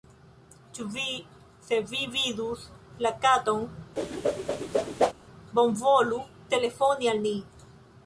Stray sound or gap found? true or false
true